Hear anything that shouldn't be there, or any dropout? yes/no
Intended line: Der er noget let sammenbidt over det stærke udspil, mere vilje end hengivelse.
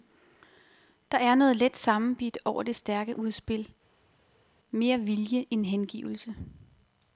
no